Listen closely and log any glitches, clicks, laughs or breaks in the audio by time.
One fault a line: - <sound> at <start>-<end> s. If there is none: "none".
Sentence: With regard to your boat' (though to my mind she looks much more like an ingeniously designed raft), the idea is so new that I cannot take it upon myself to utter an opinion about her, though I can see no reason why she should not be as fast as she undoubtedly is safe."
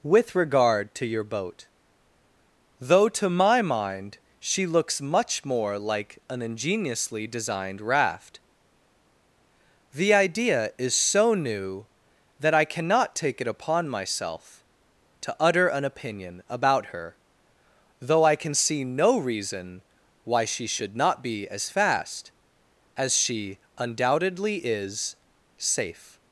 none